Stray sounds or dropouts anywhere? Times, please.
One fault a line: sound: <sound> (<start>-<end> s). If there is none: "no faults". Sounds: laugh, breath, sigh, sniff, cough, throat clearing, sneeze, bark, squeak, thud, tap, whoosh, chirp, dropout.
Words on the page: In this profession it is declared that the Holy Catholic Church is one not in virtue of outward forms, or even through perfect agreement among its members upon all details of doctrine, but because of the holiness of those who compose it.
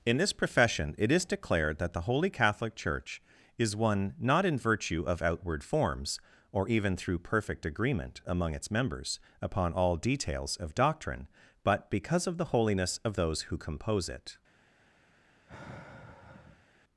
sound: sigh (15.5-16.7 s)